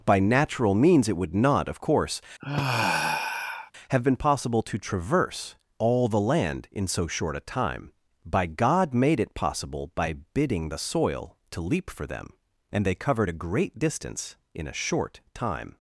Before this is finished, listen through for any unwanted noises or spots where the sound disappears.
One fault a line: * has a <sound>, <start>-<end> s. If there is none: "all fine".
* has a sigh, 2.4-3.7 s